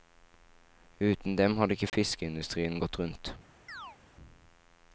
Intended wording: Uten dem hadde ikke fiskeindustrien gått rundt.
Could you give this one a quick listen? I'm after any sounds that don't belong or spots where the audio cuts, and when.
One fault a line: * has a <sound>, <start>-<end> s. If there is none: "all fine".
* has a dropout, 1.9-1.9 s
* has a chirp, 3.7-4.0 s